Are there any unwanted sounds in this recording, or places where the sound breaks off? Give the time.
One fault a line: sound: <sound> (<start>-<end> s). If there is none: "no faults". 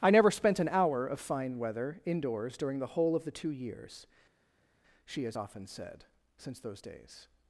no faults